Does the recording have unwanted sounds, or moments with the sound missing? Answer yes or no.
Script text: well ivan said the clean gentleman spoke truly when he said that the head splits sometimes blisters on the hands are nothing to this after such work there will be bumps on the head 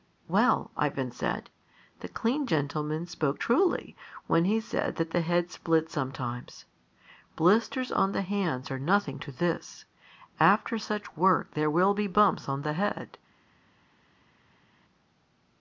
no